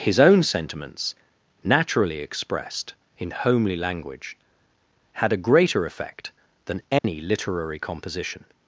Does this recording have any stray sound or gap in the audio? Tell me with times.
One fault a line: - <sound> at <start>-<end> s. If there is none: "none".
- dropout at 7.0-7.0 s